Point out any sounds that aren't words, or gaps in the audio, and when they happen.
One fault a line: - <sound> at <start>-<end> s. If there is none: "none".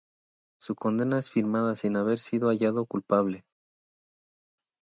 none